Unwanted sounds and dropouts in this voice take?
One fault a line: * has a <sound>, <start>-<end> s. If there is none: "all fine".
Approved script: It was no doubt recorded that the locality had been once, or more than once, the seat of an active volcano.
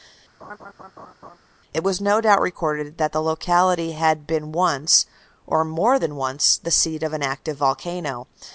* has a laugh, 0.4-1.4 s